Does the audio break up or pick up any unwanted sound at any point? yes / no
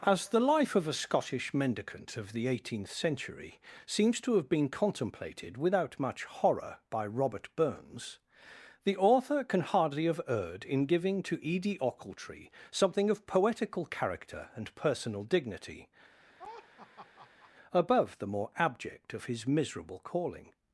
yes